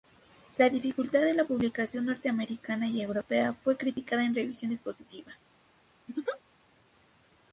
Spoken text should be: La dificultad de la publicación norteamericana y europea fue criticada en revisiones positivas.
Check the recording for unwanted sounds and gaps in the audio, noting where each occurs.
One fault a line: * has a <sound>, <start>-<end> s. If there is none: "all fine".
* has a laugh, 6.1-6.4 s